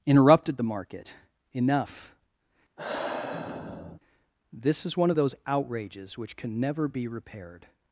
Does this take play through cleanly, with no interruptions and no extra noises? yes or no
no